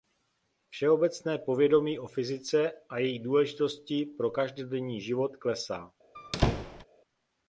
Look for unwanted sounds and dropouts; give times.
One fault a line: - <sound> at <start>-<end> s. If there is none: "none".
- squeak at 6.1-6.8 s